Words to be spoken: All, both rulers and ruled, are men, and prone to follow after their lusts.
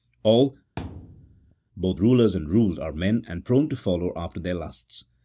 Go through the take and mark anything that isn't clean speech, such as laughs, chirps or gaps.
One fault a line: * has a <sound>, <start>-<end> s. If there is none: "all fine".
* has a thud, 0.8-1.6 s